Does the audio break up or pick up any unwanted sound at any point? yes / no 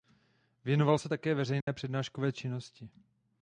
yes